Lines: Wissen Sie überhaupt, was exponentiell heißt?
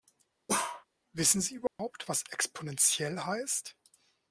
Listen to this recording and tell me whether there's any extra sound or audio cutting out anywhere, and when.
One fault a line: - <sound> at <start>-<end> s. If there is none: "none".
- bark at 0.5-0.9 s
- dropout at 1.7-1.8 s